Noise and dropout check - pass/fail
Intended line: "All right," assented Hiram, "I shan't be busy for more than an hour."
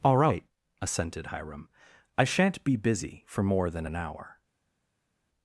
pass